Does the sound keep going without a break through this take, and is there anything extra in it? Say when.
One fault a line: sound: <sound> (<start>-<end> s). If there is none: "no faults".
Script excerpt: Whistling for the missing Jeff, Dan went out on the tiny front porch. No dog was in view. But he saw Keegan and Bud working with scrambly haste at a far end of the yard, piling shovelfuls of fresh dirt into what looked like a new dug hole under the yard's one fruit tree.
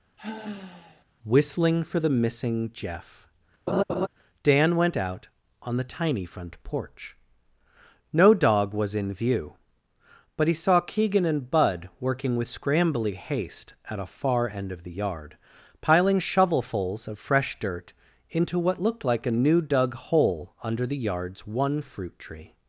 sound: sigh (0.2-1.0 s)
sound: laugh (3.7-4.1 s)